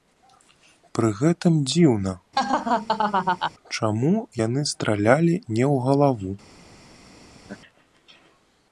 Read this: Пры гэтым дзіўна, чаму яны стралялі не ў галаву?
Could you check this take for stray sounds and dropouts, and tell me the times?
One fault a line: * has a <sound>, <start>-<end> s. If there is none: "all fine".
* has a laugh, 2.4-3.5 s
* has a laugh, 7.4-7.6 s